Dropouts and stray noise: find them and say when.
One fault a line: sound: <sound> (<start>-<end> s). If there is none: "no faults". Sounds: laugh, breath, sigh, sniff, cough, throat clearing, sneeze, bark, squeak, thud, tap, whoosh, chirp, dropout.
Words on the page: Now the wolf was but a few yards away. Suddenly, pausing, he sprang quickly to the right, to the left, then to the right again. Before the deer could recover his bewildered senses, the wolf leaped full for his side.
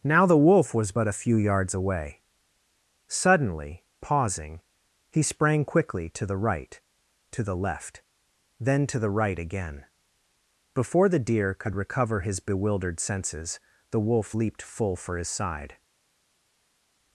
no faults